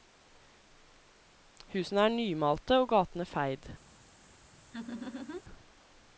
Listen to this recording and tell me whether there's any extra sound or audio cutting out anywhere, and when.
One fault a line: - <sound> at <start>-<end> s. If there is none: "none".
- laugh at 4.7-5.4 s